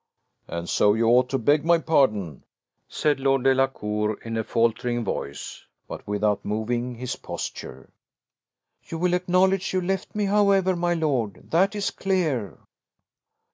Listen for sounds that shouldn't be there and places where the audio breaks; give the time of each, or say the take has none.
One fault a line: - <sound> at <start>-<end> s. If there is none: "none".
none